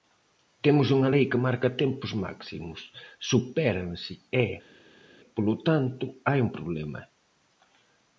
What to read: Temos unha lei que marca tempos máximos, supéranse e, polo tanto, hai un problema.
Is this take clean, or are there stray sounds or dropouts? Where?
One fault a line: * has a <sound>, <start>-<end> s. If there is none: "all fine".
all fine